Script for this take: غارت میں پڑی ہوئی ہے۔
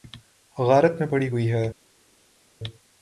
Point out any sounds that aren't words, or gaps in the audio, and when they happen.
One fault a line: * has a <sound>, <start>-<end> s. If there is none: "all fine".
all fine